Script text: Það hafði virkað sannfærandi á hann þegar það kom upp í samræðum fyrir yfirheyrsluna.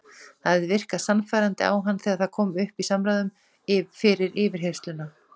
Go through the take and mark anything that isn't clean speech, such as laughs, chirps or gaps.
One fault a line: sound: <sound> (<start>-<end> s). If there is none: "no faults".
no faults